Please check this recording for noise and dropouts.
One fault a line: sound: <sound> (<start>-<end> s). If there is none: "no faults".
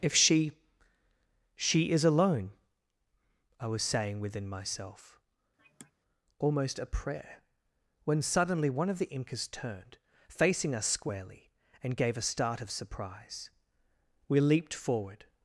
sound: sigh (5.6-5.9 s)